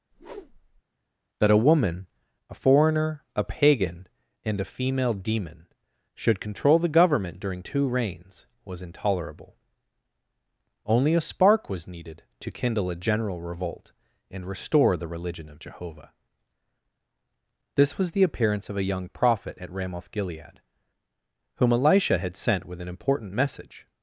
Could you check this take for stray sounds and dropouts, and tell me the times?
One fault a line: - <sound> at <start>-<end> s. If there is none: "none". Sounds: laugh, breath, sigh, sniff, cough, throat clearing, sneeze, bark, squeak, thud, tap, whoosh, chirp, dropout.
- whoosh at 0.1-0.8 s